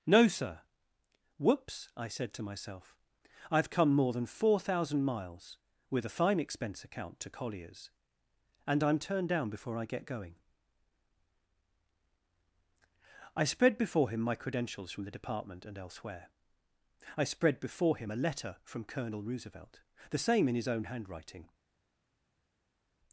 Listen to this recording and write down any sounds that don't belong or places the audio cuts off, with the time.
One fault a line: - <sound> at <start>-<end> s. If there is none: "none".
none